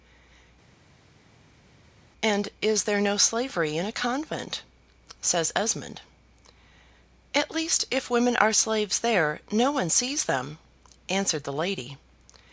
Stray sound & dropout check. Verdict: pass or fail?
pass